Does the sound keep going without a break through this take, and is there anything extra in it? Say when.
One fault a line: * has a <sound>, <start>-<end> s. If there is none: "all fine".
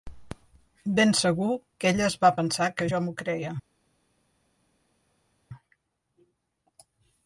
all fine